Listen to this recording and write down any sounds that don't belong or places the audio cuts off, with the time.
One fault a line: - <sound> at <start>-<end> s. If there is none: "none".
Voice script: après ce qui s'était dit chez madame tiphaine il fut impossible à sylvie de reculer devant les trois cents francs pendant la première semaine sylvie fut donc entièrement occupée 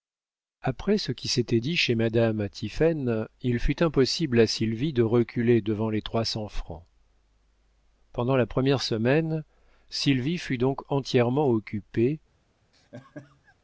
- laugh at 12.7-13.6 s